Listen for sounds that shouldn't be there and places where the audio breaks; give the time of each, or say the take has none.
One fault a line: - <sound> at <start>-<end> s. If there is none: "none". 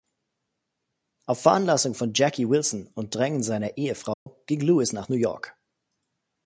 - dropout at 4.1-4.3 s